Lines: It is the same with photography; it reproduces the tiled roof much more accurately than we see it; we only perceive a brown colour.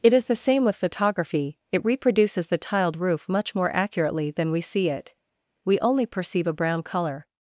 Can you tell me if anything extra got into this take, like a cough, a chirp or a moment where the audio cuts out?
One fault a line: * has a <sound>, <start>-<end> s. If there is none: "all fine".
all fine